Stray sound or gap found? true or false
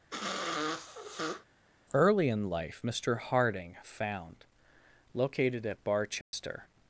true